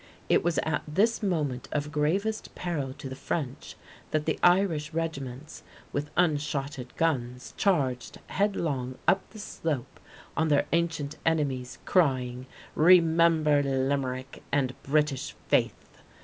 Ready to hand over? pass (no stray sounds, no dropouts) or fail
pass